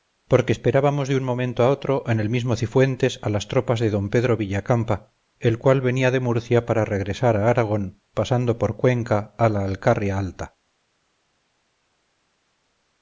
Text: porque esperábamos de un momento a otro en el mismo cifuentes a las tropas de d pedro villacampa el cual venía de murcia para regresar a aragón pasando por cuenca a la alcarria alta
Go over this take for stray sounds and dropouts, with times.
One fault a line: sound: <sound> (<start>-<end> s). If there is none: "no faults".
no faults